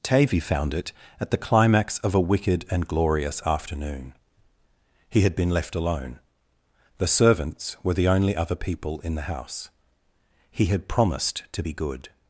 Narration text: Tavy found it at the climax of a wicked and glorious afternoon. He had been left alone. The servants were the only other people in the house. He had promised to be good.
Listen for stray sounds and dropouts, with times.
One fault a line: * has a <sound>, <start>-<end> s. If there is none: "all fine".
all fine